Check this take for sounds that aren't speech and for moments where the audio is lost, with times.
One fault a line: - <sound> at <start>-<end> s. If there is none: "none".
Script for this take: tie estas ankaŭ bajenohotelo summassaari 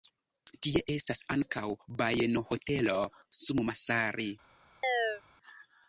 - chirp at 4.8-5.2 s